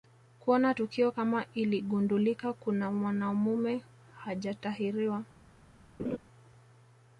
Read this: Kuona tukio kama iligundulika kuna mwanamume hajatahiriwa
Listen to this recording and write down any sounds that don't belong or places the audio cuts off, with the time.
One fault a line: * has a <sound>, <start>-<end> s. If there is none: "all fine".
* has a laugh, 6.0-6.2 s